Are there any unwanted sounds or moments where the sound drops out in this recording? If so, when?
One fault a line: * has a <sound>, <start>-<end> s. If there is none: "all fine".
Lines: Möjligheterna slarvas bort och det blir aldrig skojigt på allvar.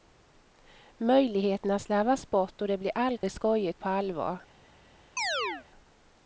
* has a dropout, 3.2-3.2 s
* has a chirp, 5.2-5.7 s